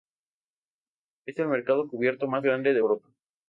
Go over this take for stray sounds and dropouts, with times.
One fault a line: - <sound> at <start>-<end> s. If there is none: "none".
none